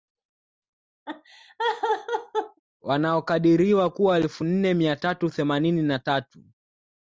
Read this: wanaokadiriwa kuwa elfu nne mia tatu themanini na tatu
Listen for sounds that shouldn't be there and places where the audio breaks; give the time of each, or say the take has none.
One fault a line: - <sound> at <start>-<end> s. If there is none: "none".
- laugh at 1.1-2.6 s